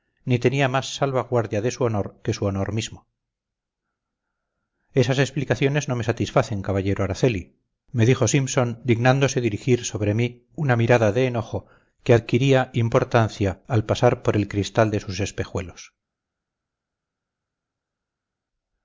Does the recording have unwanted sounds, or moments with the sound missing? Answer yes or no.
no